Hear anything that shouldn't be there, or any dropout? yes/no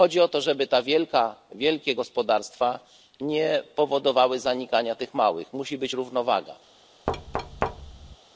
yes